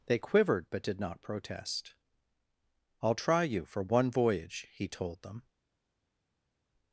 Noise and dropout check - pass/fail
pass